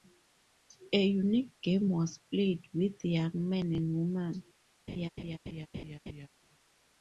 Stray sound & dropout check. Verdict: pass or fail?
fail